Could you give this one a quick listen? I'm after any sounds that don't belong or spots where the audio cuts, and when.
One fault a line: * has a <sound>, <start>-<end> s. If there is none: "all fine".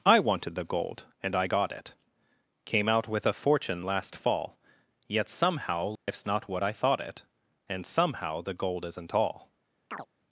* has a dropout, 6.0-6.1 s
* has a chirp, 9.9-10.1 s